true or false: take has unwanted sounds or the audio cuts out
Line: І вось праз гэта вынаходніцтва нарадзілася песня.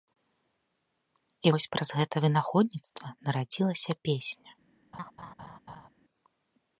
true